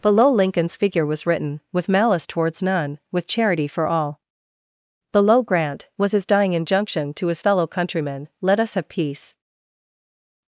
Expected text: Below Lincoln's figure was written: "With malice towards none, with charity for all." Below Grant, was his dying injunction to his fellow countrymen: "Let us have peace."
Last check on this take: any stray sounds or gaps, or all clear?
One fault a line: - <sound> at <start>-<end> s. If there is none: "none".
none